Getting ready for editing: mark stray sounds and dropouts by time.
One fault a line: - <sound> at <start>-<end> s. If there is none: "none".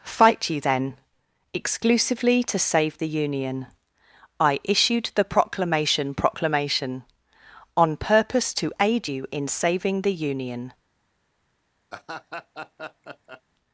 - laugh at 11.9-13.4 s